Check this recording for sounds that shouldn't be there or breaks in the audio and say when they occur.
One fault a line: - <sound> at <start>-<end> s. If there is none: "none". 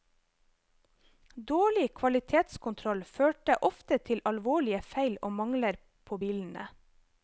none